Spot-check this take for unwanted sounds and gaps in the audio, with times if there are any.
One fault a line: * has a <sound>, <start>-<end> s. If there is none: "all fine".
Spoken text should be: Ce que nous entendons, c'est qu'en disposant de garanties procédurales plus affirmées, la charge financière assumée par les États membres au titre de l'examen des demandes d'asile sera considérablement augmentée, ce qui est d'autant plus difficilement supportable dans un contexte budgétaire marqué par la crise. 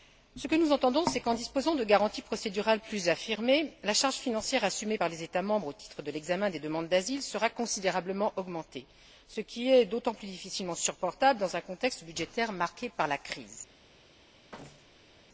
* has a thud, 14.5-15.2 s